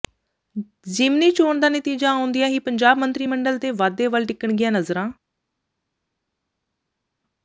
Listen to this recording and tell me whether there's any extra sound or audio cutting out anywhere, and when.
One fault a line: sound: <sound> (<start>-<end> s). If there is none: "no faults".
no faults